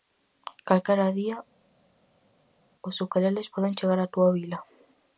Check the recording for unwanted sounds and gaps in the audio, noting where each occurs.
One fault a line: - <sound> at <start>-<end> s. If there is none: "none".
none